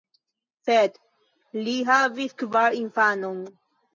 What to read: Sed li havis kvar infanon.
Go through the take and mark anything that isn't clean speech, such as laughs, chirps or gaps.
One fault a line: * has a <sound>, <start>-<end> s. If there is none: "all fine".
all fine